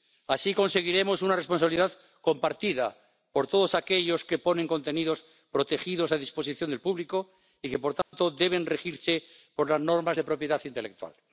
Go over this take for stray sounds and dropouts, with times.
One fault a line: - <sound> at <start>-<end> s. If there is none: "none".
- dropout at 8.0-8.1 s